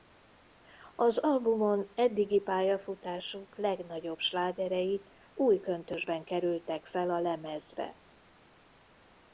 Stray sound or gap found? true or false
false